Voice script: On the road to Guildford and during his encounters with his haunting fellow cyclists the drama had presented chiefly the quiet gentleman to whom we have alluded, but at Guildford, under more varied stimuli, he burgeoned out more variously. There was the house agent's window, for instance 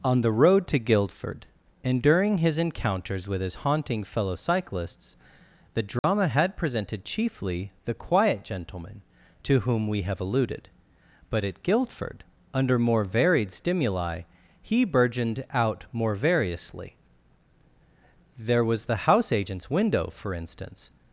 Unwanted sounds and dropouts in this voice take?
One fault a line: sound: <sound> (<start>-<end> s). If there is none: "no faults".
sound: dropout (6.0-6.0 s)